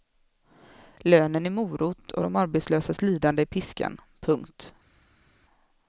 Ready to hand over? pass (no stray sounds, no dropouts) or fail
pass